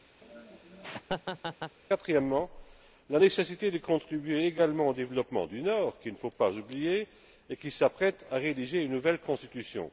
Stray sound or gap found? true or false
true